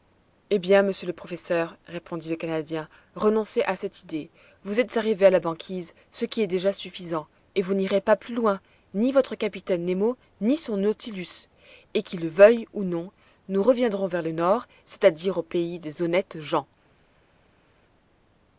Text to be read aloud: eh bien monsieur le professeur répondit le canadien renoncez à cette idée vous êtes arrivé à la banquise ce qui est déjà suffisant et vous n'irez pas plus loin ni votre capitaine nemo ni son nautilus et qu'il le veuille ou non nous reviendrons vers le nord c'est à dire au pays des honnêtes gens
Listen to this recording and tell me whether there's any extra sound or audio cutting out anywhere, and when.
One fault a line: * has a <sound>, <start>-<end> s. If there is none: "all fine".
all fine